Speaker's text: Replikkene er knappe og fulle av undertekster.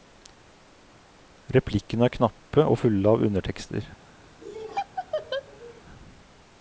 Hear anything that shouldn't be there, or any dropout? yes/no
yes